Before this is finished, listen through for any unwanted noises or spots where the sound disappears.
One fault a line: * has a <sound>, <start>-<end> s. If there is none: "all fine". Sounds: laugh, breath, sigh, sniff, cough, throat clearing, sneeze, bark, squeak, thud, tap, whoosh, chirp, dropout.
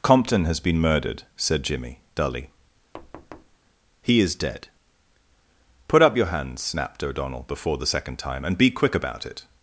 * has a thud, 2.9-3.6 s